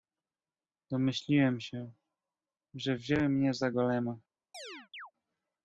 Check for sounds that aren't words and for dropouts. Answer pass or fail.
fail